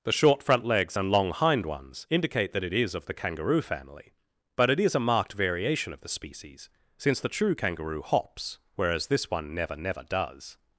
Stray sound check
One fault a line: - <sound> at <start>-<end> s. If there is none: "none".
none